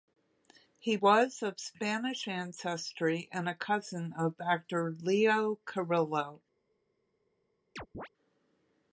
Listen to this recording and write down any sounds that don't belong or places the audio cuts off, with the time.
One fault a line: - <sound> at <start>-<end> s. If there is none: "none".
- chirp at 7.8-8.1 s